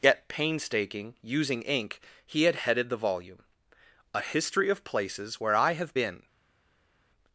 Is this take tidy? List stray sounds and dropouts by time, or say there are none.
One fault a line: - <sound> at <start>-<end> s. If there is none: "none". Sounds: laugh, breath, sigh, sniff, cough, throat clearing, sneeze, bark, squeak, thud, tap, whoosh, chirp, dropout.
none